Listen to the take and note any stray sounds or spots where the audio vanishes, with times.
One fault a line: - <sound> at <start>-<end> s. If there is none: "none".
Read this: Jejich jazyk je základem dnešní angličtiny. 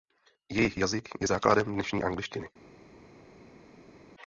none